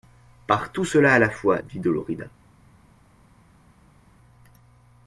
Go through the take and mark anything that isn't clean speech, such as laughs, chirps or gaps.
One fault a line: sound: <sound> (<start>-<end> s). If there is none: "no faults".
no faults